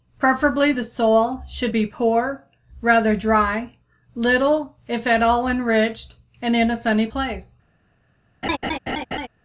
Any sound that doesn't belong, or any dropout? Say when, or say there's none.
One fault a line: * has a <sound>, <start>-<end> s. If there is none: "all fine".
* has a laugh, 8.4-9.3 s